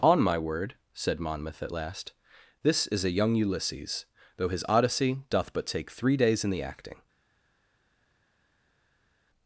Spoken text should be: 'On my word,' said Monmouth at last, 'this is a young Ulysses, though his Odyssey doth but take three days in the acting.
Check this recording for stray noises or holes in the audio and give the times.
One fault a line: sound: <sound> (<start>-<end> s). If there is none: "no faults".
no faults